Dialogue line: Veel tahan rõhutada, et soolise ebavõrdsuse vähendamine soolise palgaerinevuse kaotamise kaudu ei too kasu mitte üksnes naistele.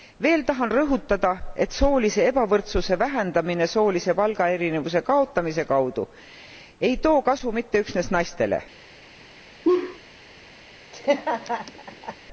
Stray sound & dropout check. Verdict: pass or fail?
fail